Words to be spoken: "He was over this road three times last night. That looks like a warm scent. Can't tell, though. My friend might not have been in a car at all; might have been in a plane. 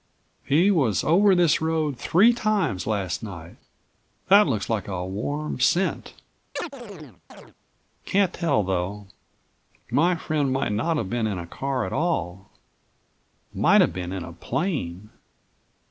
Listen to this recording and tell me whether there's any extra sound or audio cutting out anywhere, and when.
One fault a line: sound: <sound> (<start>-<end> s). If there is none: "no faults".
sound: chirp (6.6-7.5 s)